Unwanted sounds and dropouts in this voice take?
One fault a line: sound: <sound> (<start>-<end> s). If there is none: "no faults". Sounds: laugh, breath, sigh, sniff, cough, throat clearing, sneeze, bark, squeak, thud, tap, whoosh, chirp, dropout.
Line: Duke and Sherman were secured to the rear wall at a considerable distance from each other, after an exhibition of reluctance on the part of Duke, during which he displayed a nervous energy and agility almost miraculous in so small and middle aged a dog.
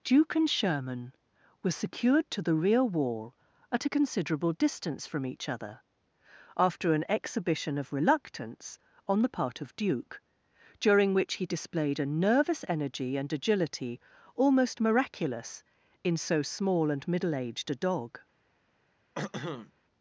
sound: throat clearing (19.2-19.7 s)